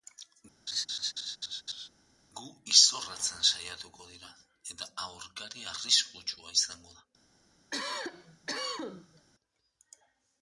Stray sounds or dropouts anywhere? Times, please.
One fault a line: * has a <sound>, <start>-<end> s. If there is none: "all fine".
* has a laugh, 0.7-1.9 s
* has a cough, 7.7-9.3 s